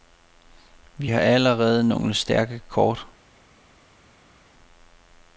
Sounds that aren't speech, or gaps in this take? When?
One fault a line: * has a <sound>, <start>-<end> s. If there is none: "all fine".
all fine